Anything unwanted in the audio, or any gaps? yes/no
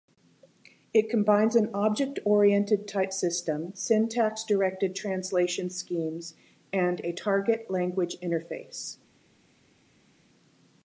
no